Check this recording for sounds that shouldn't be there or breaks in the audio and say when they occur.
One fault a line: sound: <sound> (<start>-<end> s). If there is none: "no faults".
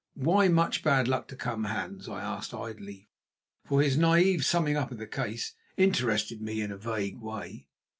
no faults